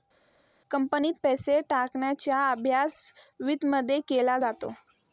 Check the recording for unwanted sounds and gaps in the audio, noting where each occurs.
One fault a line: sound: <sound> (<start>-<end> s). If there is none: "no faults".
no faults